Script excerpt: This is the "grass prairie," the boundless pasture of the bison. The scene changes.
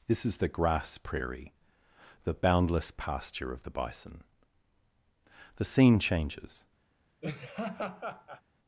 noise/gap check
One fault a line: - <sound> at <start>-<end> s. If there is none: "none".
- laugh at 7.2-8.4 s